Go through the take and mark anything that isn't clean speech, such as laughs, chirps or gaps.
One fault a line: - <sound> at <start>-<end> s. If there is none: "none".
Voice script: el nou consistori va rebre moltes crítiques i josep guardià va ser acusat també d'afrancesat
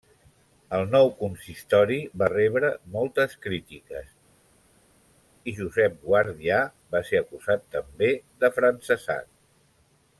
none